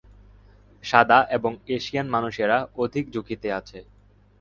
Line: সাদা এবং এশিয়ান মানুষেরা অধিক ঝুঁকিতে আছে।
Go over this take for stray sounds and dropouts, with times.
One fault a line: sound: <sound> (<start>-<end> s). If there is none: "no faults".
no faults